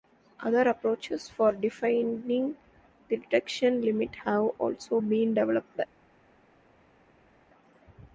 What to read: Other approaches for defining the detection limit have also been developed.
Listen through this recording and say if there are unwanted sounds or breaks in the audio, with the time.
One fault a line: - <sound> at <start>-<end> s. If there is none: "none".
none